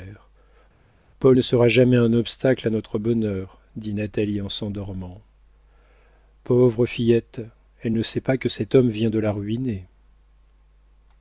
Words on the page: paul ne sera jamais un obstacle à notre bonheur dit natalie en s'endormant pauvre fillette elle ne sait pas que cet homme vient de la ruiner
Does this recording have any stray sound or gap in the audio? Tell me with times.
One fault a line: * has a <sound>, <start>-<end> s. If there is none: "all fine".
all fine